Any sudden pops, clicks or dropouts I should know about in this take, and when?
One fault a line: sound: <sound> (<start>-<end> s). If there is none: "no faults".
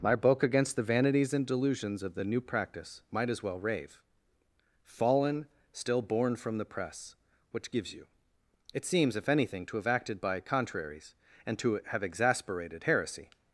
no faults